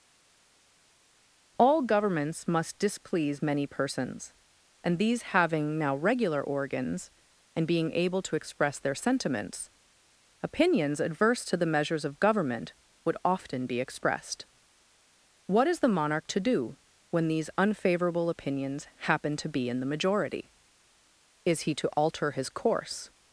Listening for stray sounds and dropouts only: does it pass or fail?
pass